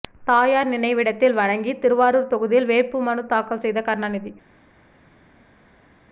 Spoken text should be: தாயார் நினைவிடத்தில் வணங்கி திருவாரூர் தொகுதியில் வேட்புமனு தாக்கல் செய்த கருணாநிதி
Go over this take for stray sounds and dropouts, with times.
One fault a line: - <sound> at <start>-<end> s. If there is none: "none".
none